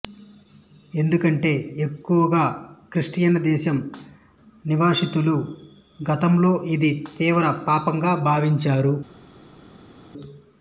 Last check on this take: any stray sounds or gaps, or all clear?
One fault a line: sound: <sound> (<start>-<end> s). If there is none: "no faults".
no faults